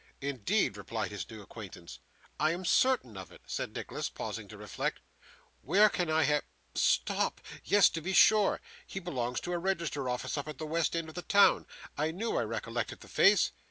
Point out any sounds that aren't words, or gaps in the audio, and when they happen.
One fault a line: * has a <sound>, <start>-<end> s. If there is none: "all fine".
all fine